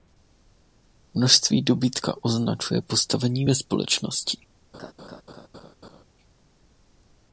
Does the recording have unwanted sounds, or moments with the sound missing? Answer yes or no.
yes